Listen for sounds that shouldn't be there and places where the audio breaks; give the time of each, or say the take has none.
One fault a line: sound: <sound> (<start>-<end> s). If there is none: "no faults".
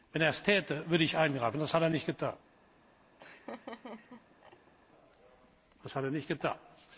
sound: laugh (3.2-4.7 s)